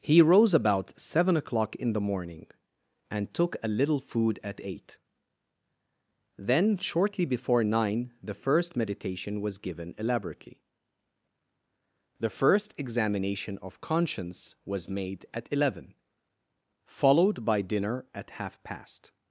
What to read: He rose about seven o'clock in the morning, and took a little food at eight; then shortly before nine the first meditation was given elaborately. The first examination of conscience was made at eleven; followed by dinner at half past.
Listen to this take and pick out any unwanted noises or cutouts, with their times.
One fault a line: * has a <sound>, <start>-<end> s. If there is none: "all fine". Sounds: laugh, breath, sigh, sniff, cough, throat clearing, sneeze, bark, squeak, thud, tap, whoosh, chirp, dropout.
all fine